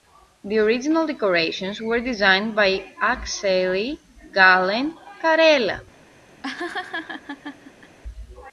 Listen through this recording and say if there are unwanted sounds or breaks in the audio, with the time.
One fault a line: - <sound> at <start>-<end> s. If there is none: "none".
- laugh at 6.4-8.0 s